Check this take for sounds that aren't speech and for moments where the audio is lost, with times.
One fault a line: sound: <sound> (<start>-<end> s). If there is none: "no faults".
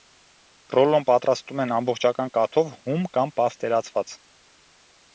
no faults